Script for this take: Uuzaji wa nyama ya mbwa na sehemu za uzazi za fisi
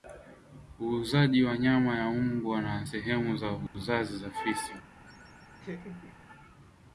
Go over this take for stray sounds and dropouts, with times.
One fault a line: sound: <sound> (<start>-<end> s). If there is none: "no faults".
sound: dropout (3.7-3.7 s)
sound: laugh (5.1-6.2 s)